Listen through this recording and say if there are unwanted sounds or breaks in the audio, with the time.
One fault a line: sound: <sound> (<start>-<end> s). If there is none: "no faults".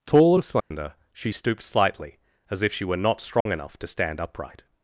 sound: dropout (0.6-0.7 s)
sound: dropout (3.4-3.5 s)